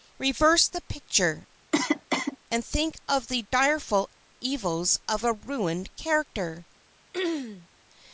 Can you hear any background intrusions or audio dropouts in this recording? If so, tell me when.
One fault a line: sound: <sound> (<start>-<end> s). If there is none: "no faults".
sound: cough (1.7-2.4 s)
sound: throat clearing (7.1-7.7 s)